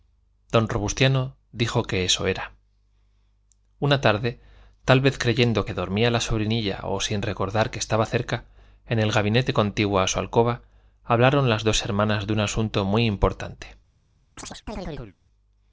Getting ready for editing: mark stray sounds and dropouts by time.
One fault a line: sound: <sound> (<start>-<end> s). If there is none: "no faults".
sound: chirp (14.4-15.2 s)